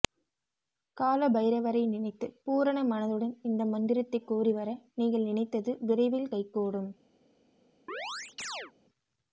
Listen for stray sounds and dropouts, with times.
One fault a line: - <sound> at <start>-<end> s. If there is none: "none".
- chirp at 7.9-8.7 s